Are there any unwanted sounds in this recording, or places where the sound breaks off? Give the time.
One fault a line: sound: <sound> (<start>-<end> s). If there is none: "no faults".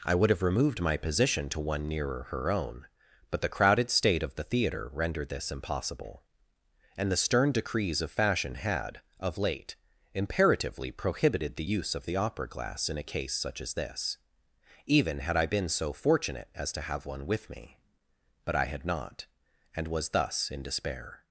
no faults